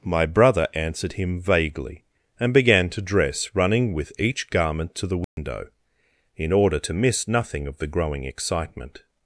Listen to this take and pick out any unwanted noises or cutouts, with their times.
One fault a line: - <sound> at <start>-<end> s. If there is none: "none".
- dropout at 5.2-5.4 s